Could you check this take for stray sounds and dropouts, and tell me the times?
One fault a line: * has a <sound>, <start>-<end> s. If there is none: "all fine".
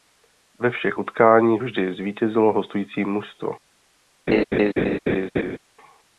* has a laugh, 4.3-5.6 s